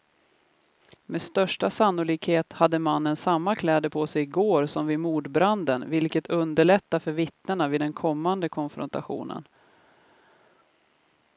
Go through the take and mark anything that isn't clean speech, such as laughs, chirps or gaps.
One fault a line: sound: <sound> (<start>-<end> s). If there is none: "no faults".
no faults